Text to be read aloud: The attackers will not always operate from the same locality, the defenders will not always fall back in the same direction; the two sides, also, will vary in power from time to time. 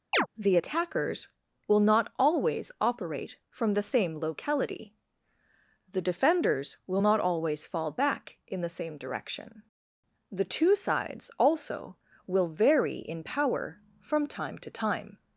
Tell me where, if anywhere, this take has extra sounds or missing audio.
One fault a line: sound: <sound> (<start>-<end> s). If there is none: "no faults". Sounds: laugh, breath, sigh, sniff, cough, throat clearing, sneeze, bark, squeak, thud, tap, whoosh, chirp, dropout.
sound: chirp (0.1-0.3 s)